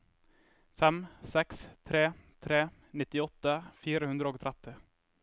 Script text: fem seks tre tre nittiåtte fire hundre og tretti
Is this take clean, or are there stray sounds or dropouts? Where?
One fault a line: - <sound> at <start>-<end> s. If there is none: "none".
none